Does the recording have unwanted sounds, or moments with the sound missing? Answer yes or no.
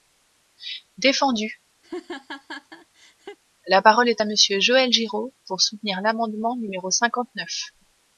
yes